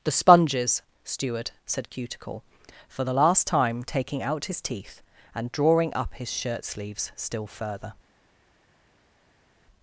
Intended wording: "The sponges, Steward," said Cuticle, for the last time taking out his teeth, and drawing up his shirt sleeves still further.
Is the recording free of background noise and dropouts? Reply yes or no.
yes